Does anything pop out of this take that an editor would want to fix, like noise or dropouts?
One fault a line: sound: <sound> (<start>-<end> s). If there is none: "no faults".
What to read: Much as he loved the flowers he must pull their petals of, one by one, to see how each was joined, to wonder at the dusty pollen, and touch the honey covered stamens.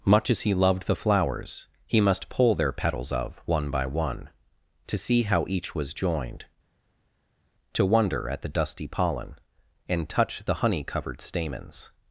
no faults